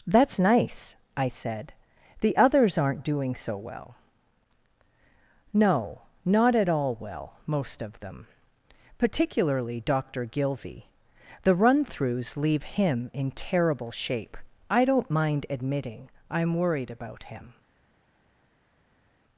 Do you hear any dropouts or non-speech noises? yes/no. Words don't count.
no